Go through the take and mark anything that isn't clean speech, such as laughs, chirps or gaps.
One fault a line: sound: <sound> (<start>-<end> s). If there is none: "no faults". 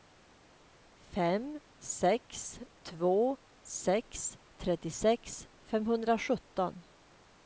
no faults